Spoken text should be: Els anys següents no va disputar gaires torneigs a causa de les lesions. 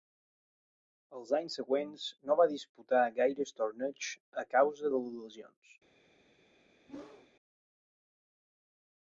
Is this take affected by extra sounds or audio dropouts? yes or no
yes